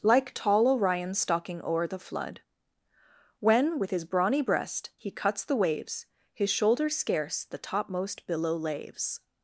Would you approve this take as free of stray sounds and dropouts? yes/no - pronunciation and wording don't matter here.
yes